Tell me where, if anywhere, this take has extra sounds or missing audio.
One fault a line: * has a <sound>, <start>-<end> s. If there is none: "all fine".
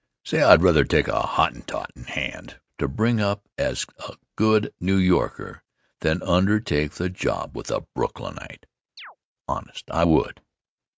* has a chirp, 9.0-9.2 s